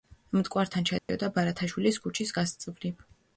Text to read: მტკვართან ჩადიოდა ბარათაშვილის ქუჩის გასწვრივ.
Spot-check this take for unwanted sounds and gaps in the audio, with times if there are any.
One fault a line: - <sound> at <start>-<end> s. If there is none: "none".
- dropout at 1.0-1.1 s